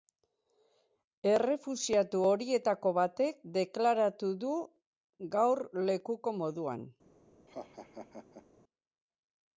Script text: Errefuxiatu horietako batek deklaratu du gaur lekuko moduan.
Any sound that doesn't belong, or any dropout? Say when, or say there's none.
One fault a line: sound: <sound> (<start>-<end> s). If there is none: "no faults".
sound: laugh (7.5-8.5 s)